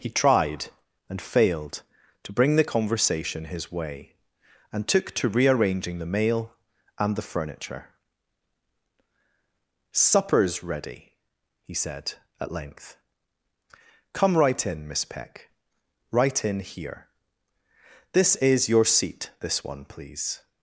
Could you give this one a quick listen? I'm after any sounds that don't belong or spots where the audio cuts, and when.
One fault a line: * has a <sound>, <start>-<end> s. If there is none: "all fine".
all fine